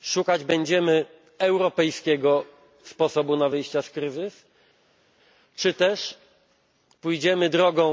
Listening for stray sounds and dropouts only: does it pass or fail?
pass